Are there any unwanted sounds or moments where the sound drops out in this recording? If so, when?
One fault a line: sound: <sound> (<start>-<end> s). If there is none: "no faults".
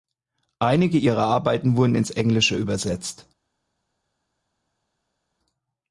no faults